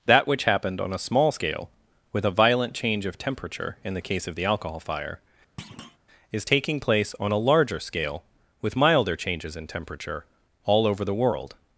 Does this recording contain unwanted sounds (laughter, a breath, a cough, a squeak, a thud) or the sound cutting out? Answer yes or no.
yes